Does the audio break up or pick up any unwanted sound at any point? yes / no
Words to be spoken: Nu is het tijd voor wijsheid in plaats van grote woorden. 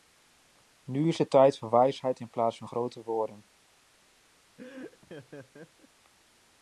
yes